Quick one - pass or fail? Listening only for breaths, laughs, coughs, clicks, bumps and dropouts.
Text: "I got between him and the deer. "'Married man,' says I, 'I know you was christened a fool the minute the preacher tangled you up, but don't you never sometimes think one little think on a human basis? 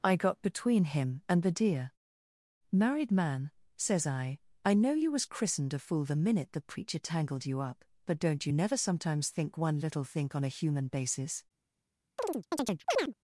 fail